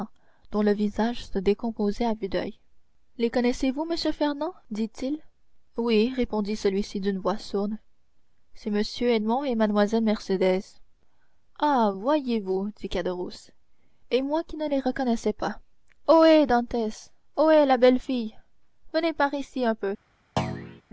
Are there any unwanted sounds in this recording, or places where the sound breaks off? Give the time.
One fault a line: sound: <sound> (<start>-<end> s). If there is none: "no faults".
sound: thud (20.4-20.8 s)